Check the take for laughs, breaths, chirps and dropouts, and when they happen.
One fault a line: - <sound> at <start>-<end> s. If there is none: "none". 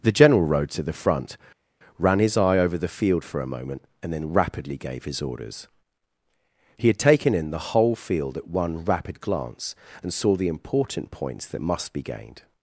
none